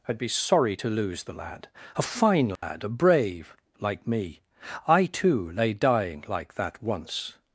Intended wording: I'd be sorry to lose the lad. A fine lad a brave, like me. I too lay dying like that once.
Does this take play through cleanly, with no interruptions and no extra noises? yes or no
no